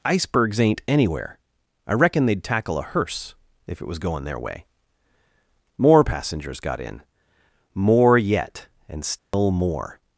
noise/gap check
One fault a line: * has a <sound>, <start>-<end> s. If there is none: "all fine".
* has a dropout, 9.2-9.3 s